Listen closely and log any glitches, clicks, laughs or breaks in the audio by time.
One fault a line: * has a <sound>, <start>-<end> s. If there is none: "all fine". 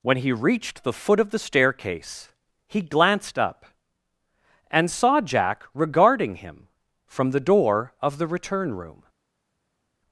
all fine